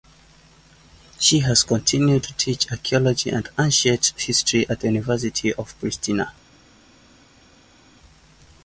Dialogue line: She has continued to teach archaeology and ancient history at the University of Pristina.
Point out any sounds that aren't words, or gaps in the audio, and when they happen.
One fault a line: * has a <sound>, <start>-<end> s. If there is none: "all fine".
all fine